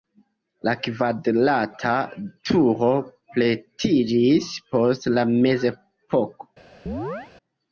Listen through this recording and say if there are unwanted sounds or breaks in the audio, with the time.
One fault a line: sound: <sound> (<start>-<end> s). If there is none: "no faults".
sound: chirp (6.9-7.3 s)